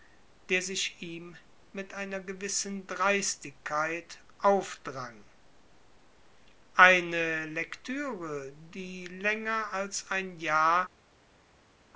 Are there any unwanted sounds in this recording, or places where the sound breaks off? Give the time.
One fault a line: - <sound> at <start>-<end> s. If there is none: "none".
none